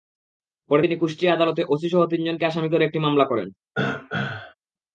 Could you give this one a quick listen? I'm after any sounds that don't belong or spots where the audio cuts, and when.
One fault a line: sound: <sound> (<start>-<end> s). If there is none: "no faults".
sound: throat clearing (3.7-4.5 s)